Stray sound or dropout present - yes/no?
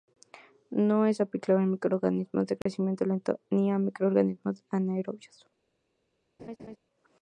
yes